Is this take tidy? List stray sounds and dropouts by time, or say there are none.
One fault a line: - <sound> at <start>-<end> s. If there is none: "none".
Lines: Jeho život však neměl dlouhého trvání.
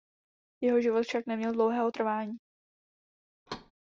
- thud at 3.5-3.7 s